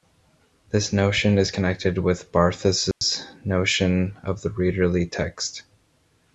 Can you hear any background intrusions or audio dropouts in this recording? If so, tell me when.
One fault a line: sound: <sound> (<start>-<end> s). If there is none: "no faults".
sound: dropout (2.9-3.0 s)